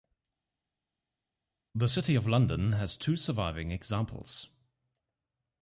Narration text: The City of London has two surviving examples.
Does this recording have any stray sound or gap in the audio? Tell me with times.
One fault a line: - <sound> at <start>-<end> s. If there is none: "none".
none